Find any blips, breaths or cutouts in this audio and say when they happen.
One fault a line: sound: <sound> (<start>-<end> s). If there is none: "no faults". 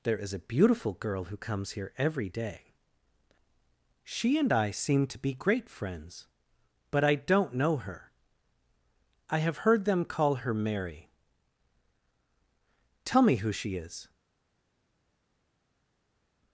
no faults